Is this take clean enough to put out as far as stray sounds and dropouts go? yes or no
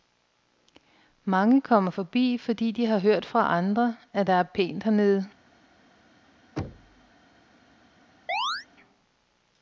no